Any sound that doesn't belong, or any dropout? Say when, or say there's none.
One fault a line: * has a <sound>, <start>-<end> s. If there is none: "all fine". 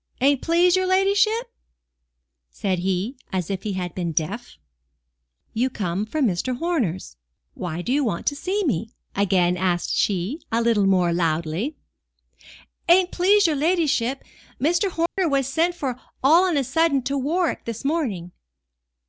* has a dropout, 15.1-15.2 s